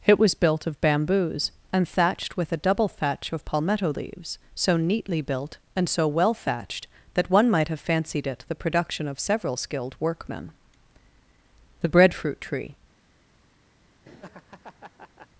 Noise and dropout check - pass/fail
fail